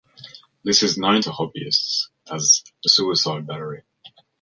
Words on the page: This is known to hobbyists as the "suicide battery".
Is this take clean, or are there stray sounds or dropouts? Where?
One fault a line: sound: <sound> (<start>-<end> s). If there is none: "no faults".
no faults